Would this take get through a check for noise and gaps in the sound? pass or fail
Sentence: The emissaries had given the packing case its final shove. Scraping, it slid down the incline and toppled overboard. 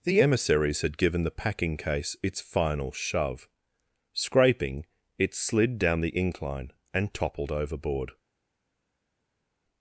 pass